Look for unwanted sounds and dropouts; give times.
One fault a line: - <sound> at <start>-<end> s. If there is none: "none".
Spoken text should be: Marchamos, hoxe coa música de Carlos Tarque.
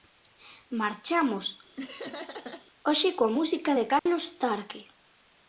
- laugh at 1.8-2.7 s
- dropout at 4.0-4.1 s